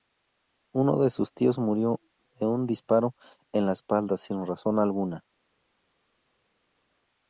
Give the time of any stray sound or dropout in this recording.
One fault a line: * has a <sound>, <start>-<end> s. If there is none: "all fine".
all fine